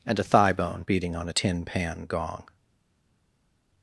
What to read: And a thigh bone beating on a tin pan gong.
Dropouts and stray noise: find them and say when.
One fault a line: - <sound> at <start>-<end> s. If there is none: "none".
none